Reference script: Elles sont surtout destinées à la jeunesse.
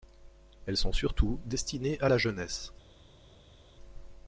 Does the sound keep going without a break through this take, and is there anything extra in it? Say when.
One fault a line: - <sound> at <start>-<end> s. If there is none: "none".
none